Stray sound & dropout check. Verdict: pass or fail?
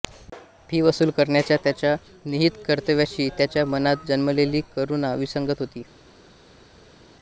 pass